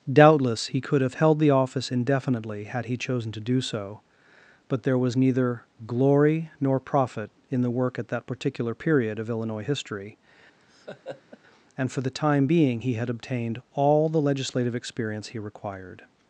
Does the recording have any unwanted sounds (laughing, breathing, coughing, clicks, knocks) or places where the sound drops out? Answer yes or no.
yes